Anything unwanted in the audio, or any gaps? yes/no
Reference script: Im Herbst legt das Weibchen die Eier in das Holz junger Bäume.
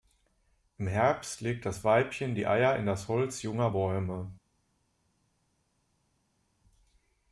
no